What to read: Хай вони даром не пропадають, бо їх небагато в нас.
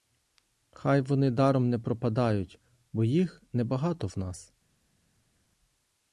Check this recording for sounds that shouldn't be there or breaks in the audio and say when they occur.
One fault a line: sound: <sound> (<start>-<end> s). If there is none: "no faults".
no faults